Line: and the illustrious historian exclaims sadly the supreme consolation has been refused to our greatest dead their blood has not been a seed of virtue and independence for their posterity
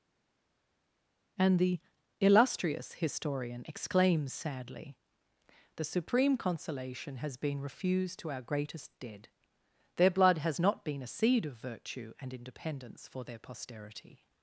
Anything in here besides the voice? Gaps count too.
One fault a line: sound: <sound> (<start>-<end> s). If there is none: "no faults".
no faults